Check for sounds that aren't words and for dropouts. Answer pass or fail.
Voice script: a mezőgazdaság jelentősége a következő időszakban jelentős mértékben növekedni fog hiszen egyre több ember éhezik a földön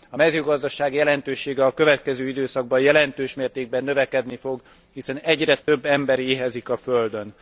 fail